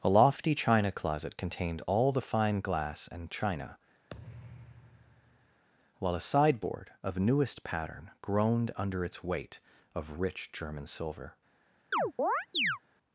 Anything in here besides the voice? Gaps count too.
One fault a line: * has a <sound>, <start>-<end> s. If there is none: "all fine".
* has a thud, 4.1-5.6 s
* has a chirp, 11.9-12.8 s